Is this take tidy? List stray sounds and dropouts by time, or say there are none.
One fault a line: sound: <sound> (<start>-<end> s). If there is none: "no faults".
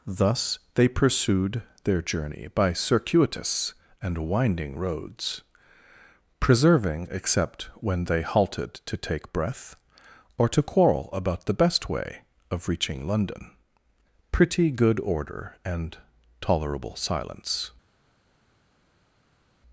no faults